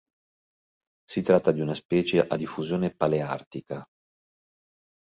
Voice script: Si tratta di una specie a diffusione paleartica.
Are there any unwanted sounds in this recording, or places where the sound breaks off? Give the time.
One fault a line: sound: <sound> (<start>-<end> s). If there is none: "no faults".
no faults